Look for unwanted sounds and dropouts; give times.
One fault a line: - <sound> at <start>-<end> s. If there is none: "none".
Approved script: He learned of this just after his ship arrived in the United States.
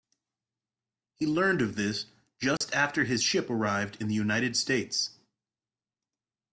- dropout at 2.6-2.6 s